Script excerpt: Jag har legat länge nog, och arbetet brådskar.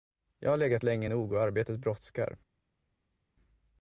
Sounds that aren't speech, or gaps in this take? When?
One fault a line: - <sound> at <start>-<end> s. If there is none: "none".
none